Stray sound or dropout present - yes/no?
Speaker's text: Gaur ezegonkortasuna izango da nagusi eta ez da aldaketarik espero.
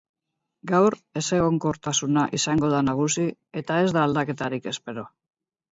no